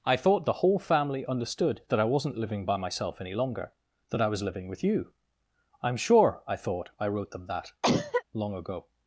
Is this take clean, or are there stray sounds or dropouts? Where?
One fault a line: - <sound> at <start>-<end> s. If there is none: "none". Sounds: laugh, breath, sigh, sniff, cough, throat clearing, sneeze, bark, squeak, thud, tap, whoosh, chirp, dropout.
- cough at 7.8-8.2 s